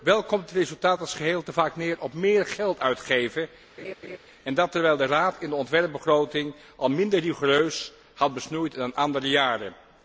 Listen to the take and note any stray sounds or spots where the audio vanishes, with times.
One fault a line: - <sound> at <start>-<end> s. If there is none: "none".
- laugh at 3.8-4.2 s